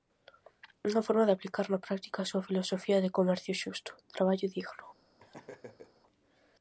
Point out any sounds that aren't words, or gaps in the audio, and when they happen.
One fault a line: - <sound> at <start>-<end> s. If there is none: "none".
- laugh at 5.2-6.0 s